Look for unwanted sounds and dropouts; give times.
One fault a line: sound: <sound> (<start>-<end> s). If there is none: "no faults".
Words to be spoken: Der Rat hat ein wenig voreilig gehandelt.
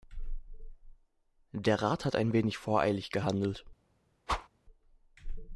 sound: whoosh (4.3-4.5 s)